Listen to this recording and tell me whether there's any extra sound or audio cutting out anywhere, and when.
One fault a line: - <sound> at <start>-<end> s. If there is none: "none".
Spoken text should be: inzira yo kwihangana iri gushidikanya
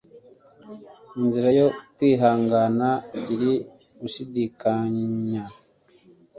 none